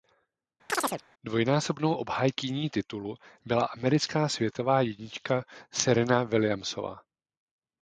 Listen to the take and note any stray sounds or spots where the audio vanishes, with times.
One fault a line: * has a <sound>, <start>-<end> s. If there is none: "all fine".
* has a chirp, 0.7-1.0 s